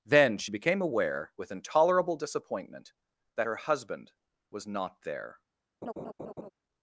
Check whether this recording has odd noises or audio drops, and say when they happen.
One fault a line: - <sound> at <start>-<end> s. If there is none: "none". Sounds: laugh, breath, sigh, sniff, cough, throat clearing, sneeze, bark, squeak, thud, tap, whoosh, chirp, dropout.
- laugh at 5.8-6.5 s